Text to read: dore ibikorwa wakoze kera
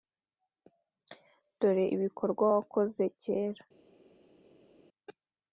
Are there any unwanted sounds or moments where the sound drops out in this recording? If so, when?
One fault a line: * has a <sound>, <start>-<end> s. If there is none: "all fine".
all fine